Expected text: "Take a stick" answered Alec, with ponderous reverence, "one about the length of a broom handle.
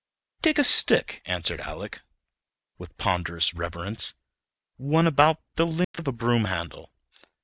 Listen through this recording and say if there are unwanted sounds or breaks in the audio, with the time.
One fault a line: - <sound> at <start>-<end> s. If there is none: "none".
- dropout at 5.8-5.9 s